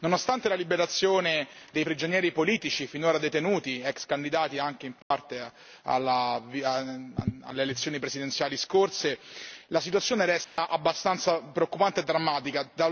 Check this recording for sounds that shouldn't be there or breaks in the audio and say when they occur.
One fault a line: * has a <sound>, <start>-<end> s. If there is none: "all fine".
* has a dropout, 5.0-5.1 s
* has a dropout, 10.4-10.6 s